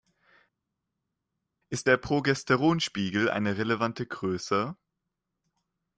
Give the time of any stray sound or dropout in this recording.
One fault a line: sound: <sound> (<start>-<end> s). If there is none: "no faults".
no faults